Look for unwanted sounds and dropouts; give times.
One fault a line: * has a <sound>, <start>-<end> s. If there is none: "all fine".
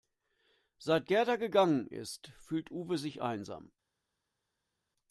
all fine